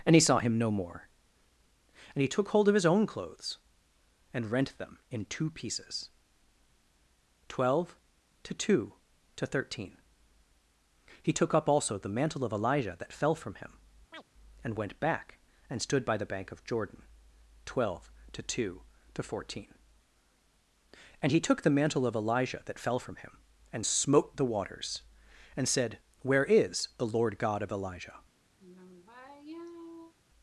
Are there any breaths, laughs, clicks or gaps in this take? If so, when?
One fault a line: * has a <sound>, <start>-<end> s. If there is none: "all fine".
* has a chirp, 14.1-14.2 s
* has a sigh, 28.6-30.1 s